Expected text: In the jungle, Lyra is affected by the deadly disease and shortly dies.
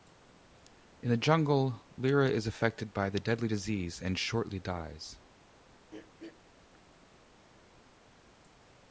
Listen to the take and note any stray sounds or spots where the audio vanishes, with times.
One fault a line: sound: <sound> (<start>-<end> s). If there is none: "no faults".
sound: throat clearing (5.9-6.4 s)